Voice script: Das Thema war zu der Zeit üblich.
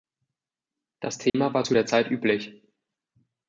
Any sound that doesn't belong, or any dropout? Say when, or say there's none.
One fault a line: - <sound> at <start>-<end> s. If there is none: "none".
- dropout at 1.3-1.3 s